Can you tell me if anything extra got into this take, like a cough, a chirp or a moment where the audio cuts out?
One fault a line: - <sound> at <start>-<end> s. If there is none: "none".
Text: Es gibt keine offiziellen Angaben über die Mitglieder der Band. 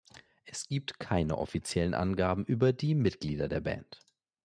none